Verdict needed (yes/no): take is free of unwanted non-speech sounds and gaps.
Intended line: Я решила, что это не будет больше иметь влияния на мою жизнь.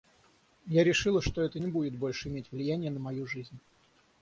yes